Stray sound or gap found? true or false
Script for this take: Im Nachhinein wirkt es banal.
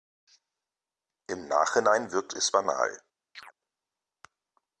true